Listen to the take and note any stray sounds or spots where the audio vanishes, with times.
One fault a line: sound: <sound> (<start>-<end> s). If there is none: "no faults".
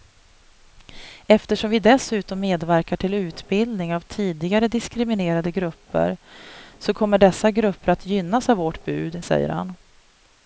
no faults